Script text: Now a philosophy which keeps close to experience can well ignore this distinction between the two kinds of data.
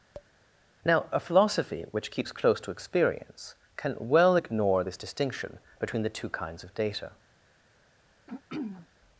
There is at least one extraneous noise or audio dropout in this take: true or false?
true